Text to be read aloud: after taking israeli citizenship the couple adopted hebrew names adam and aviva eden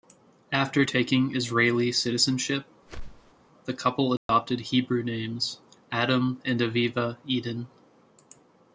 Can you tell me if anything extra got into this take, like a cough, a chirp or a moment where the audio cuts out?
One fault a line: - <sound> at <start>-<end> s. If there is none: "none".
- whoosh at 2.9-3.3 s
- dropout at 4.2-4.3 s